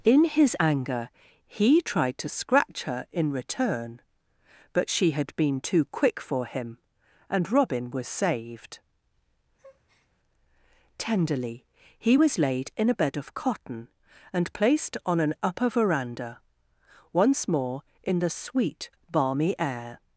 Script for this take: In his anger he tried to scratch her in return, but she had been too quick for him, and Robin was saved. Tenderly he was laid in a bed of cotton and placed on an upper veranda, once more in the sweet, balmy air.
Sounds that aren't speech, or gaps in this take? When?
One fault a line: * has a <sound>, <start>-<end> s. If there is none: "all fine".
* has a breath, 9.6-10.1 s